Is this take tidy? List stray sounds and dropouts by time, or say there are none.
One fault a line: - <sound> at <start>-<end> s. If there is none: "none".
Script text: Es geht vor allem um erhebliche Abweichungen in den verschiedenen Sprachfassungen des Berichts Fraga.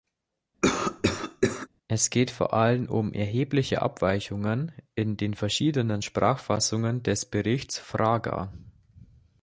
- cough at 0.6-1.7 s